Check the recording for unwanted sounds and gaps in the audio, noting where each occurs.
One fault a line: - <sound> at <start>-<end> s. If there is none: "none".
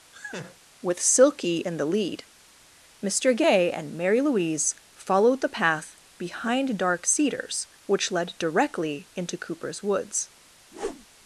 - laugh at 0.1-0.6 s
- whoosh at 10.7-11.1 s